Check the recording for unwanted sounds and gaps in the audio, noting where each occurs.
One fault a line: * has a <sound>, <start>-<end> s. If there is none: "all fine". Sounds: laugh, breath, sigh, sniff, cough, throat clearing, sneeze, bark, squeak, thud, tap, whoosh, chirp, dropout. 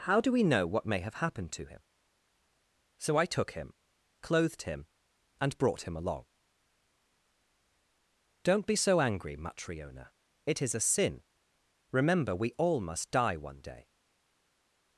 all fine